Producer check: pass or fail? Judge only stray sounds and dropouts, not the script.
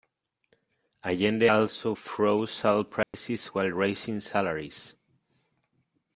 fail